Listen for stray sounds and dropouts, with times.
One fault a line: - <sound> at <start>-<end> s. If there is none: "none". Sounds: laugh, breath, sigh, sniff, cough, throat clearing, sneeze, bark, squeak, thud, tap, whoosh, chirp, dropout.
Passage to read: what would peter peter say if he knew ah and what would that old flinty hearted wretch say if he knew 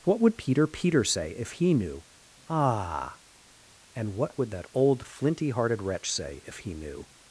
none